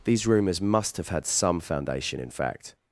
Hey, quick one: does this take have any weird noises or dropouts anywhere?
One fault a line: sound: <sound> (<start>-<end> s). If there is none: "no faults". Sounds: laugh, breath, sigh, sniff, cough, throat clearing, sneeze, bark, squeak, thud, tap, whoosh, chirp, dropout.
no faults